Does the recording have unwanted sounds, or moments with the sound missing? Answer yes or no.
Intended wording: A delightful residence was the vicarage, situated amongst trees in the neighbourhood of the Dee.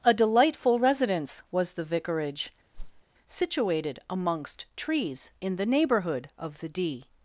yes